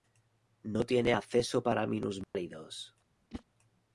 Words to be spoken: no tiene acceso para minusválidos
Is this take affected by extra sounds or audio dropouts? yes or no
yes